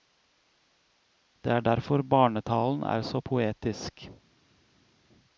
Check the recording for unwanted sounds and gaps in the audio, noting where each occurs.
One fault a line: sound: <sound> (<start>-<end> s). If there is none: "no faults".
no faults